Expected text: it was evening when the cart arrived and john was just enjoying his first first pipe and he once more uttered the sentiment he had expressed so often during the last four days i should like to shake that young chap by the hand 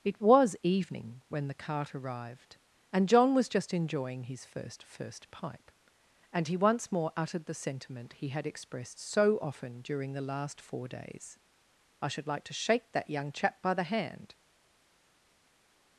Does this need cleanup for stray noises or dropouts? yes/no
no